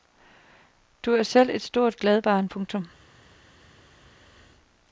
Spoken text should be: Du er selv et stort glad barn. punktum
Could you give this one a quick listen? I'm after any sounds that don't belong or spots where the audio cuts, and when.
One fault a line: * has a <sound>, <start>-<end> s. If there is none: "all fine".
all fine